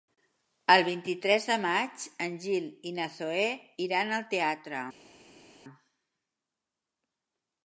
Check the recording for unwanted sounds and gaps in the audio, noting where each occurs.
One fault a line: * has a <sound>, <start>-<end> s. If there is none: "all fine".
all fine